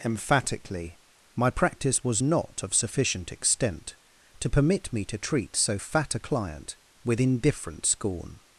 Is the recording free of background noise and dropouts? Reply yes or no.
yes